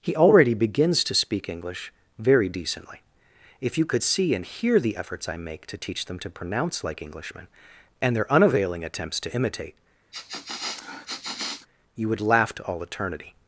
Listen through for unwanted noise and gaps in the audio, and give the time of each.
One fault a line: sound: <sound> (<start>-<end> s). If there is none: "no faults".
sound: sniff (10.1-11.7 s)